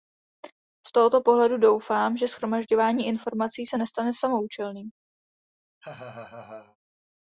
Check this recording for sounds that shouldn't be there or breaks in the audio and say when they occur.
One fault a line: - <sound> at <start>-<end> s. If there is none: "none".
- laugh at 5.8-6.8 s